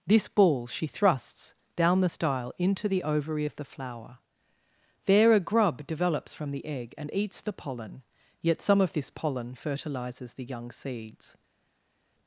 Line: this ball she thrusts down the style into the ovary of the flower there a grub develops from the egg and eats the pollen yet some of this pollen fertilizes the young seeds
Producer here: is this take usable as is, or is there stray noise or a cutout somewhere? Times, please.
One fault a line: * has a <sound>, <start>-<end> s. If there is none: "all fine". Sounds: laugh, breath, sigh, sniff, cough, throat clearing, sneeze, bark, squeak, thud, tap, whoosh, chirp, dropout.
all fine